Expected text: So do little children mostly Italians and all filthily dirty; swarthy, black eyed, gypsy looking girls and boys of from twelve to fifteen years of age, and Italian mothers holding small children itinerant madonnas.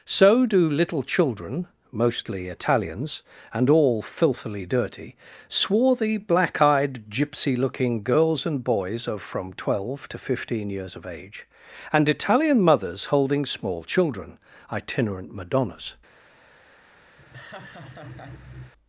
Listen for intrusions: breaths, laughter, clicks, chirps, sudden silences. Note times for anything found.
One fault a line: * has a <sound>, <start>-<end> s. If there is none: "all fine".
* has a laugh, 17.2-18.7 s